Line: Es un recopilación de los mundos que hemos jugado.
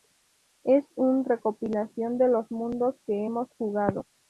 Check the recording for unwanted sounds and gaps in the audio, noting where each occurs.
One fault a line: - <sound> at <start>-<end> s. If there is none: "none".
none